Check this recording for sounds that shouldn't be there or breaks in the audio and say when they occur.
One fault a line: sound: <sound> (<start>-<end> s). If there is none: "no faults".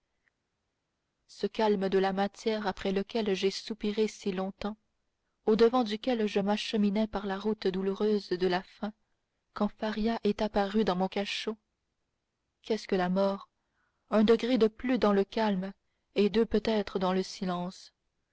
no faults